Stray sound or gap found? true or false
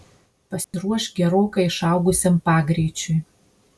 true